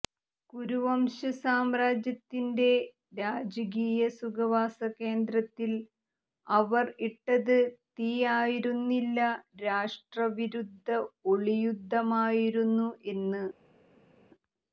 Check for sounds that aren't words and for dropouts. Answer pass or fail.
pass